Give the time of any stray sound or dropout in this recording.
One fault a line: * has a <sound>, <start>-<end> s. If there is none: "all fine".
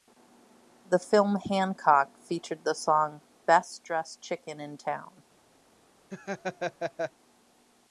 * has a laugh, 6.1-7.1 s